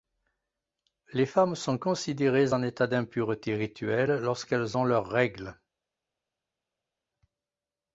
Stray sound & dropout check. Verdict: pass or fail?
pass